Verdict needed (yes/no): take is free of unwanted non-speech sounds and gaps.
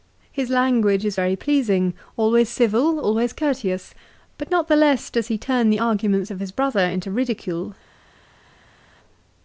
yes